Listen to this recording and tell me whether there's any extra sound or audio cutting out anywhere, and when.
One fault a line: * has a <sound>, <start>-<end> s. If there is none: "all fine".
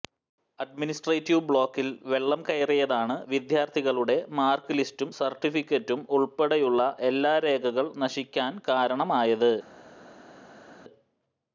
all fine